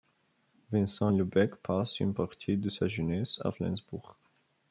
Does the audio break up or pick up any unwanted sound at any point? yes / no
no